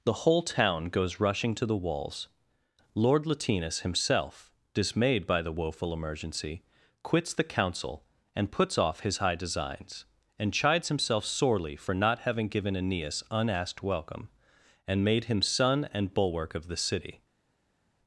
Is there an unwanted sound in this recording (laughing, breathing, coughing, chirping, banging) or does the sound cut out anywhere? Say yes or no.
no